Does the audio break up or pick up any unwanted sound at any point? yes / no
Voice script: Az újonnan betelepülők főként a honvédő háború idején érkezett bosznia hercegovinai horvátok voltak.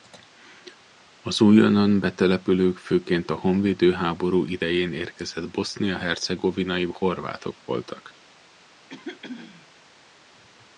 yes